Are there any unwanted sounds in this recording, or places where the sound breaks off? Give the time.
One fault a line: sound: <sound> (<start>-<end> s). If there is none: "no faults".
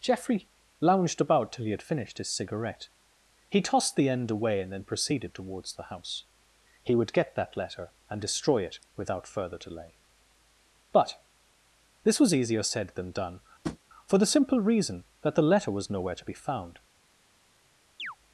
sound: tap (13.6-13.8 s)
sound: chirp (18.0-18.2 s)